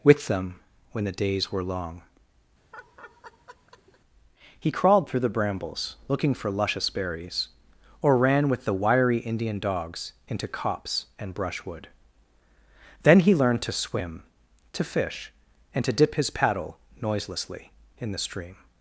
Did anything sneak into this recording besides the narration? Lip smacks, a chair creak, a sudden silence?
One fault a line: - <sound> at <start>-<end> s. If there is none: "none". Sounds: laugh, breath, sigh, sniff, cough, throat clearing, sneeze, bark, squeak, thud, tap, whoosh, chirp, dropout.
- laugh at 2.7-4.0 s